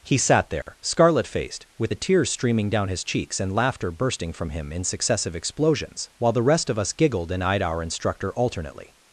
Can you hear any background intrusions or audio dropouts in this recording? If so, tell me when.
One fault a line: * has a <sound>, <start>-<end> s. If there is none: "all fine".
* has a dropout, 0.6-0.7 s